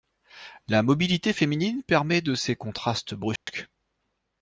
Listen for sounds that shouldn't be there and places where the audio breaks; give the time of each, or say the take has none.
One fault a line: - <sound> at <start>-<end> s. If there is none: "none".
- dropout at 3.4-3.5 s